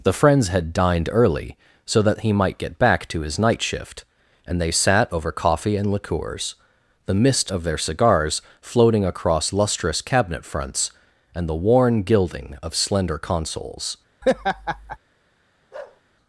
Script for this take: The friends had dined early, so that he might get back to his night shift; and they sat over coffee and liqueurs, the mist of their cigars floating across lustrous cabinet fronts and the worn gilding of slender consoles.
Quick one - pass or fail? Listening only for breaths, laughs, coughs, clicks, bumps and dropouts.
fail